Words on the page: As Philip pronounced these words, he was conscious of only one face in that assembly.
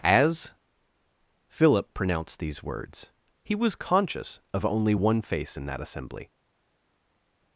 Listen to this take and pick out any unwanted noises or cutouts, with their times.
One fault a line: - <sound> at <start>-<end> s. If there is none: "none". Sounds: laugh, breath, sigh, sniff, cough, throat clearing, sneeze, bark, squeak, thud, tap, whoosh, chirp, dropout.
none